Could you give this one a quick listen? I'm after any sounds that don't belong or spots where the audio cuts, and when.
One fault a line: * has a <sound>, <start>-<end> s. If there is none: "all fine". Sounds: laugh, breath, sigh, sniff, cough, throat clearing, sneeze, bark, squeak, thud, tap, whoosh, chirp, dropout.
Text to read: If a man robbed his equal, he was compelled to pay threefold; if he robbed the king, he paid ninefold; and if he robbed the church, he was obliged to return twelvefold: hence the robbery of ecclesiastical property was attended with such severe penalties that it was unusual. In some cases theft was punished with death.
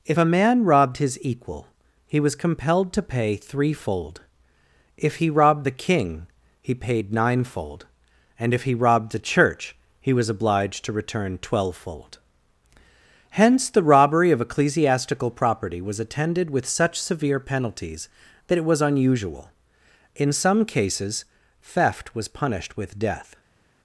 all fine